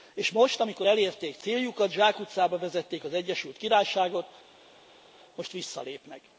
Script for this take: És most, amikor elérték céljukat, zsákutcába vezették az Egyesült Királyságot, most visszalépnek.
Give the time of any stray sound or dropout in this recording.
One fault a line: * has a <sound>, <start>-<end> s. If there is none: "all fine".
all fine